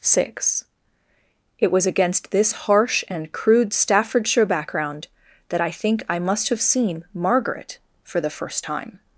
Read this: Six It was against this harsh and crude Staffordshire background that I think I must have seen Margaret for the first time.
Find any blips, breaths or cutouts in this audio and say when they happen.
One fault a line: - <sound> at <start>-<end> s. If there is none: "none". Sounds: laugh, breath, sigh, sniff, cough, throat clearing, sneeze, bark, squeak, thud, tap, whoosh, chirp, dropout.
none